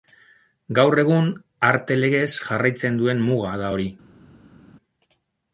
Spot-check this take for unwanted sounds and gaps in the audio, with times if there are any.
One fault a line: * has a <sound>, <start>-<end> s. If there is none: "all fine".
all fine